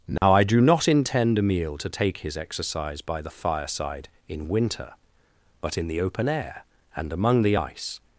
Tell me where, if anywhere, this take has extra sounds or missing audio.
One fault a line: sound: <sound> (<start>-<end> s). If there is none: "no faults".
sound: dropout (0.2-0.2 s)